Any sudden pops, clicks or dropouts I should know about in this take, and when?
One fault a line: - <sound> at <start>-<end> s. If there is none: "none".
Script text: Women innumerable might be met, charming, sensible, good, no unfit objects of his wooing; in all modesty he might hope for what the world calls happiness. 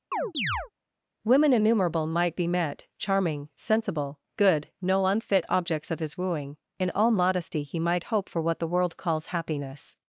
- chirp at 0.1-0.7 s